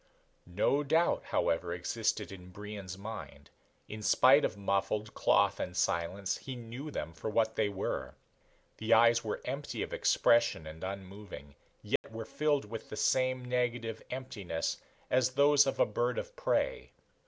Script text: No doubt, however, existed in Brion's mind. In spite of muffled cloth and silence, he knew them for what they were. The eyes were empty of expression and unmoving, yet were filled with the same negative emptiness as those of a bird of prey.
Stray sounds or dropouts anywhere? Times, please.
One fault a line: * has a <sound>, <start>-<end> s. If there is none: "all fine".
* has a dropout, 12.0-12.0 s